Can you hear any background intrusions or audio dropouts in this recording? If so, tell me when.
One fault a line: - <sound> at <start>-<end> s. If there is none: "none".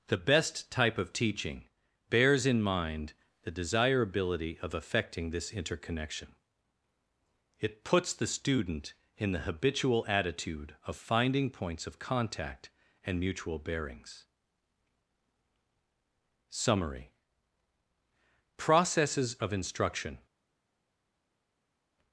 none